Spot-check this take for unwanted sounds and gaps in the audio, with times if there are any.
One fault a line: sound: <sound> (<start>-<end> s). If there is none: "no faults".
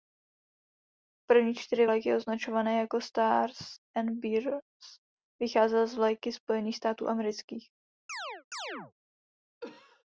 sound: chirp (8.1-8.9 s)
sound: cough (9.6-10.0 s)